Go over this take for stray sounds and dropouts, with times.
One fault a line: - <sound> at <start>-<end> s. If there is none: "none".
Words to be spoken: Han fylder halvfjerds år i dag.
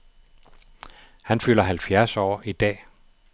none